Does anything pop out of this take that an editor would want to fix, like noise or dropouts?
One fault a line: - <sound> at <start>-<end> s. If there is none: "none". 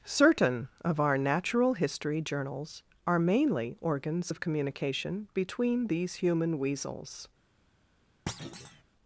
- thud at 8.3-8.8 s